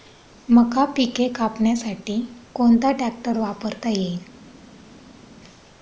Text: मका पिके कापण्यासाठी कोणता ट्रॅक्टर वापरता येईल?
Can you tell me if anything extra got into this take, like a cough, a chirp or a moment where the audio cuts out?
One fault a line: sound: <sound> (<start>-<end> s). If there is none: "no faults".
no faults